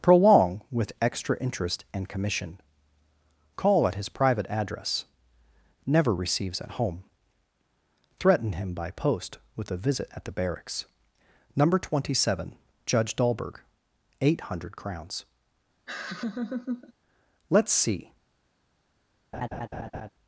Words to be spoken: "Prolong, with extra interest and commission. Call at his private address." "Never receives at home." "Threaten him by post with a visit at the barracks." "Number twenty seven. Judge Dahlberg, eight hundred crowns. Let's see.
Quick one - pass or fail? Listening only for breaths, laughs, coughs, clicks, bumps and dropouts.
fail